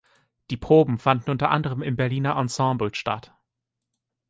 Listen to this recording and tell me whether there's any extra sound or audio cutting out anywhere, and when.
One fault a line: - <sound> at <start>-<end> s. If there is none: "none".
none